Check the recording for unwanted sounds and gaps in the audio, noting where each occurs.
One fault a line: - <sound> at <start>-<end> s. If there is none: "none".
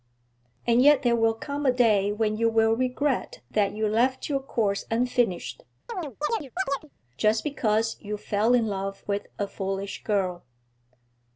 - chirp at 5.9-6.9 s